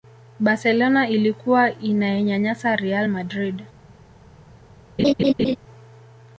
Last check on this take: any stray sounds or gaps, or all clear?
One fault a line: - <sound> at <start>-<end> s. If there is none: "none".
- laugh at 5.0-5.6 s